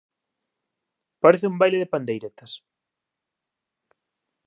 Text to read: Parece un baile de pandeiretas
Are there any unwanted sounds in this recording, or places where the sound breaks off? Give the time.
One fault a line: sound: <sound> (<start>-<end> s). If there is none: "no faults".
no faults